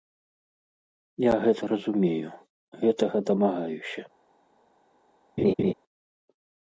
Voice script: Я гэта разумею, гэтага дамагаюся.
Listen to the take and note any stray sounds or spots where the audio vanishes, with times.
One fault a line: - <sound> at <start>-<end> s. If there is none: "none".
- laugh at 5.4-5.7 s